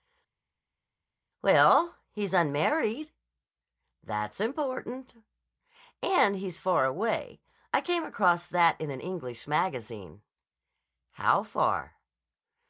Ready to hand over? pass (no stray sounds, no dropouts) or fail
pass